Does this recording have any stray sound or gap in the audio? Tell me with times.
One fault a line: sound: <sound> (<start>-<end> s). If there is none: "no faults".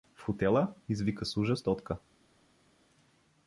no faults